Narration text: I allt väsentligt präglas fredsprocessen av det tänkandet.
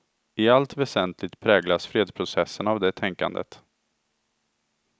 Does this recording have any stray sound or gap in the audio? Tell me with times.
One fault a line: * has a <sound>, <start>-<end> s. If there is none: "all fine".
all fine